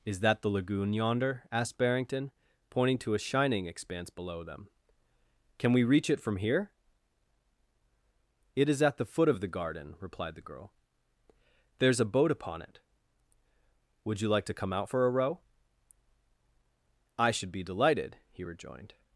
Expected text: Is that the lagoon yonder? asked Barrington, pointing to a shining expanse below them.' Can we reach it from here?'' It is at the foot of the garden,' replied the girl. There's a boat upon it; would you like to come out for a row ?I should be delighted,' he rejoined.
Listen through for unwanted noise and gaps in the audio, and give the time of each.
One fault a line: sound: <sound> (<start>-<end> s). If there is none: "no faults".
no faults